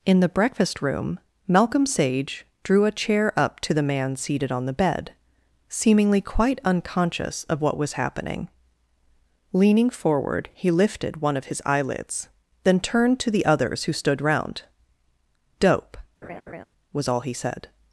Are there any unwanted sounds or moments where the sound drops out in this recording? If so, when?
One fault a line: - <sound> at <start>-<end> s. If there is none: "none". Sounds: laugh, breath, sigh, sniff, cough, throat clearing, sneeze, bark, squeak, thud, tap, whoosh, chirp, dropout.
- laugh at 16.2-16.6 s